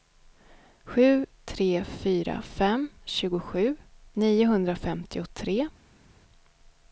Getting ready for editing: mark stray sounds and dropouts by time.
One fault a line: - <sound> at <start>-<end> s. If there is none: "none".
none